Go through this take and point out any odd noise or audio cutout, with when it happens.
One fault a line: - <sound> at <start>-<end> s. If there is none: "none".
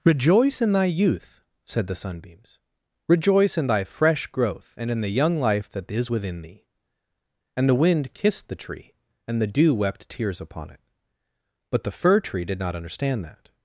none